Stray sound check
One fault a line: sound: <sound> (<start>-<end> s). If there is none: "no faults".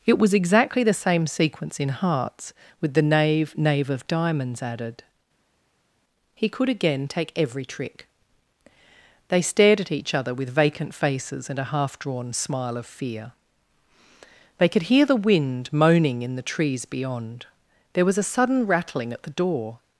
no faults